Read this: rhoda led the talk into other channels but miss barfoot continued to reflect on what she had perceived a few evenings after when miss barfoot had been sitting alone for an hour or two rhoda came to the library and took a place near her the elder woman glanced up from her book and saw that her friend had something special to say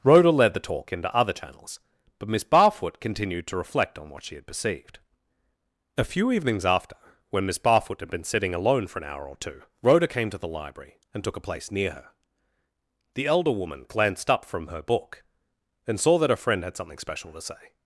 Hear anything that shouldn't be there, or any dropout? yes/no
no